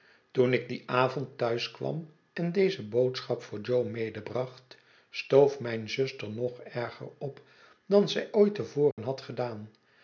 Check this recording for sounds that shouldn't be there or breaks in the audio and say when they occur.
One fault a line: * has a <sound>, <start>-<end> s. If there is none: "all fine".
* has a dropout, 8.9-9.0 s